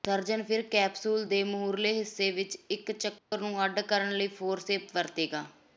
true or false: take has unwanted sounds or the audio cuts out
true